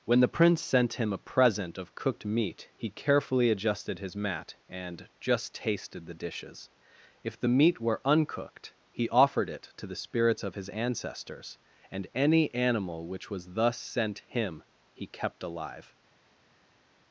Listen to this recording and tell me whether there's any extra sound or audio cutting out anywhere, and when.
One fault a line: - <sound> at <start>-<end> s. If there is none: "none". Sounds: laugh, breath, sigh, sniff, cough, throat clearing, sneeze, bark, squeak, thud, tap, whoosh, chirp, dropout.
none